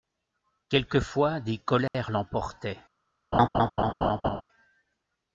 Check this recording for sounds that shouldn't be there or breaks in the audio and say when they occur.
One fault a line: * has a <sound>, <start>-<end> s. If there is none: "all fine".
* has a dropout, 1.9-1.9 s
* has a laugh, 3.3-4.4 s